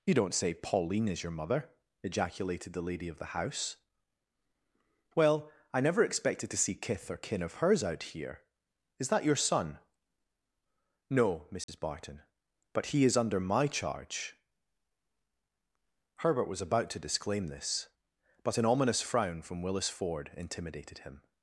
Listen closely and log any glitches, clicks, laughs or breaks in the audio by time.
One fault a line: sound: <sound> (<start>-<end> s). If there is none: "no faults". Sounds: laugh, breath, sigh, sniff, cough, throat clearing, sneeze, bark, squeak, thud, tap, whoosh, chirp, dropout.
sound: dropout (11.6-11.7 s)